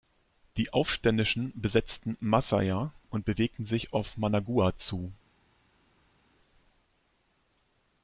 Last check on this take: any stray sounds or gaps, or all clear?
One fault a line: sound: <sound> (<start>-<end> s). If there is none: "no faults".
no faults